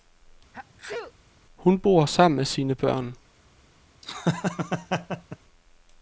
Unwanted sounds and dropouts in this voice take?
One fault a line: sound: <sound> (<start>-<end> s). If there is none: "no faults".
sound: sneeze (0.5-1.1 s)
sound: laugh (4.0-5.4 s)